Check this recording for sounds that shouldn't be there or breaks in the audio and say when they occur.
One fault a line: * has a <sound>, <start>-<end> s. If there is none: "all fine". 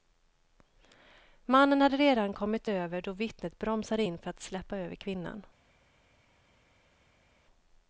all fine